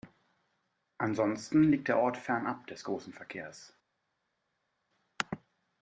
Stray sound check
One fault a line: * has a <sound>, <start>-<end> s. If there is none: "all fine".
all fine